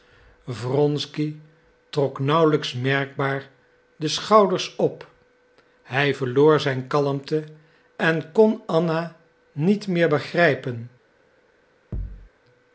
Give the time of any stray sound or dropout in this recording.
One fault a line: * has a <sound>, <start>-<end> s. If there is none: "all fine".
* has a thud, 11.9-12.3 s